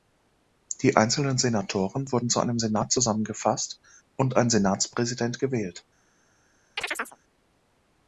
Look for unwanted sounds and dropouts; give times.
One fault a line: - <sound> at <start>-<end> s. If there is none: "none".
- chirp at 6.8-7.2 s